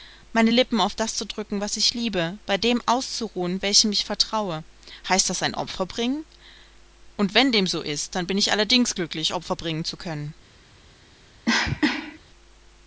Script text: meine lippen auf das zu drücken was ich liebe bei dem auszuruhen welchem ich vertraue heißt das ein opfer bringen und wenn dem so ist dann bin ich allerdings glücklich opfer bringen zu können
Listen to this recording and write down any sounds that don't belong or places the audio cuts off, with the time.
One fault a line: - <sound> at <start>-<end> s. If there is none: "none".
- cough at 11.4-12.2 s